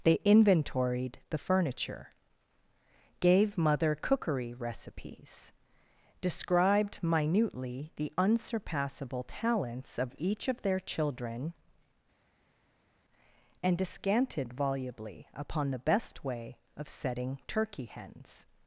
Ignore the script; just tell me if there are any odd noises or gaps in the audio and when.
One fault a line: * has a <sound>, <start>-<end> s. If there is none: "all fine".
all fine